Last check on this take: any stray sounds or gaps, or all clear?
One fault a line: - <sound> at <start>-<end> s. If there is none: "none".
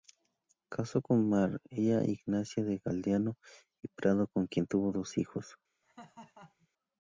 - laugh at 5.8-6.7 s